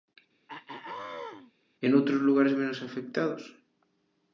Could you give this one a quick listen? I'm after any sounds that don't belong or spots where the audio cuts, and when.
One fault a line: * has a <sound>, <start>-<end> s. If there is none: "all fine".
* has a throat clearing, 0.5-1.5 s